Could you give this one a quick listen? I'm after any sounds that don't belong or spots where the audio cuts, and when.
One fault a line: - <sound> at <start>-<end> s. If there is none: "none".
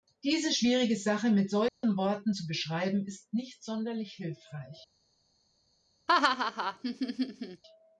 - dropout at 1.7-1.8 s
- laugh at 6.1-7.6 s